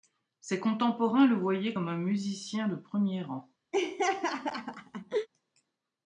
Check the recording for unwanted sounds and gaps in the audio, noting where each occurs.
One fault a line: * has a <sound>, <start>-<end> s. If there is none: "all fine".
* has a laugh, 3.7-5.3 s